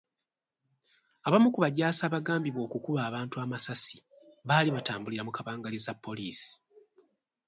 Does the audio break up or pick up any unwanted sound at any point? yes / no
no